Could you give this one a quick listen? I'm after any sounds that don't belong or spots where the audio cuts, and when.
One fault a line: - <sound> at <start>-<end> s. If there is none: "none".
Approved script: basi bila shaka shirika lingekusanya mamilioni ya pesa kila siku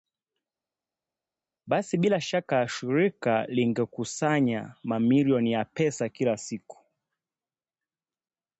none